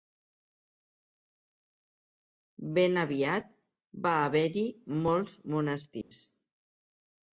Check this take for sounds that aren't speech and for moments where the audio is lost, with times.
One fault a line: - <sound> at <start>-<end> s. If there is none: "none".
- dropout at 6.0-6.1 s